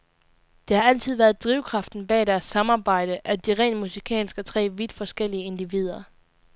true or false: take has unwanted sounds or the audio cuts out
false